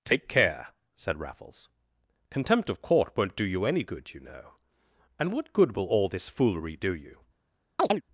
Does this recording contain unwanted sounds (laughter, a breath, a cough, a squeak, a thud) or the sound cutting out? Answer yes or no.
yes